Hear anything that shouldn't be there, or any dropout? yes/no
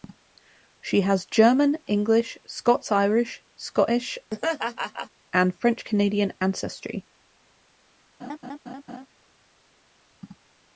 yes